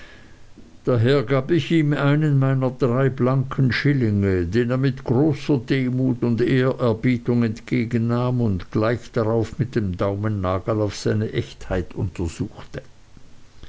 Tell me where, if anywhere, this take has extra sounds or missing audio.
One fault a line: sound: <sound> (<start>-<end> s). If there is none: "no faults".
no faults